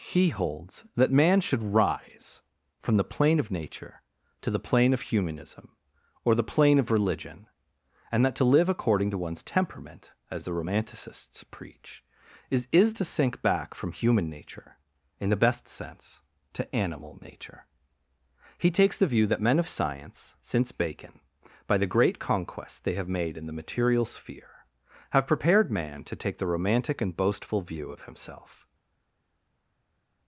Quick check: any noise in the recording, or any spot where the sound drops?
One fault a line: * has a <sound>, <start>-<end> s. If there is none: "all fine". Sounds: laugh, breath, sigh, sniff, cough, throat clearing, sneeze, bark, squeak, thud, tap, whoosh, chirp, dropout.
all fine